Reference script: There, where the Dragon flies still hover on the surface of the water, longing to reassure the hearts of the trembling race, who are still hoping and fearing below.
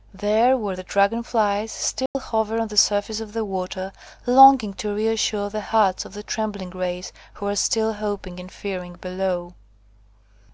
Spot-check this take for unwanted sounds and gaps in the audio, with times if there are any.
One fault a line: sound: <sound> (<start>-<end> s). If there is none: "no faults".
sound: dropout (2.1-2.1 s)